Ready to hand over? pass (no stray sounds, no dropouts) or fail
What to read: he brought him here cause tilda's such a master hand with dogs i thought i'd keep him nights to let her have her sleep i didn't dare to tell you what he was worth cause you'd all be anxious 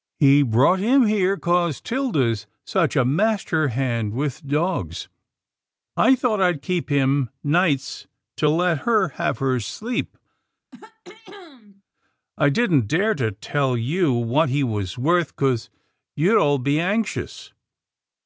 fail